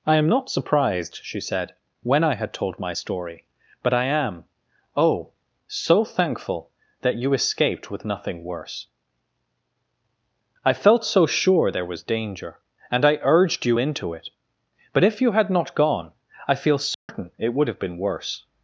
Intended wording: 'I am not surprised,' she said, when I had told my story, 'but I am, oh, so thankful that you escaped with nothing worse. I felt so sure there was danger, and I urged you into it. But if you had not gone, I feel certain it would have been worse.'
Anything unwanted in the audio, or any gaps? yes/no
yes